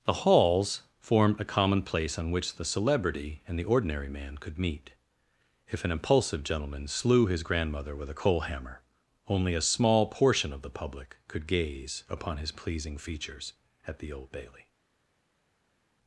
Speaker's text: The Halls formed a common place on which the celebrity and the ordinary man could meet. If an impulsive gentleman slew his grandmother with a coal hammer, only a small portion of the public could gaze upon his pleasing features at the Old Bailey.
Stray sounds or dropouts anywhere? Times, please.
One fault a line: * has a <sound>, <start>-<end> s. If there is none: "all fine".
all fine